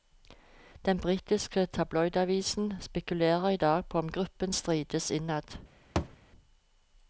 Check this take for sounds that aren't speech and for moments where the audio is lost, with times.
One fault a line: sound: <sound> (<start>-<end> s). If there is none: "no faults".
sound: thud (6.0-6.2 s)